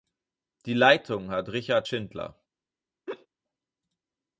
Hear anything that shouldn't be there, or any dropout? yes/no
yes